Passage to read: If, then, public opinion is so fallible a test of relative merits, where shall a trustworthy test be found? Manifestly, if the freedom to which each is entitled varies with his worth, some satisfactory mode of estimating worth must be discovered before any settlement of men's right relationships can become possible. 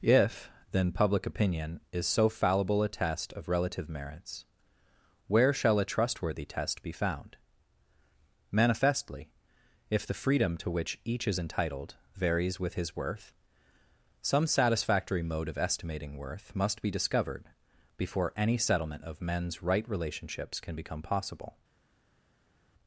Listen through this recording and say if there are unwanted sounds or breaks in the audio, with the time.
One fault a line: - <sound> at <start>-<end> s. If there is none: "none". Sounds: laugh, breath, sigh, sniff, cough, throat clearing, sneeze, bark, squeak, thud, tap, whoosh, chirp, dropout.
none